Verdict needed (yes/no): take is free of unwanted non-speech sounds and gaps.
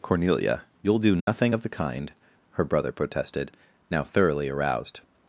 no